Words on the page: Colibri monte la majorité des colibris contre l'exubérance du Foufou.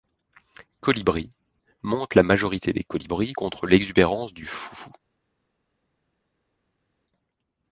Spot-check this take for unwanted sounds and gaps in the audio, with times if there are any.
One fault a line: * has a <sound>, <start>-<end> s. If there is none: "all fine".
all fine